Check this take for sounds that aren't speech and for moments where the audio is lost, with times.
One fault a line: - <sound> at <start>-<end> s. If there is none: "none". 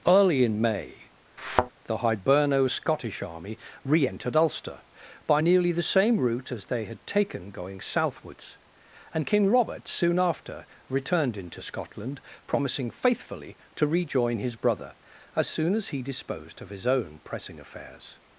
- thud at 1.4-1.7 s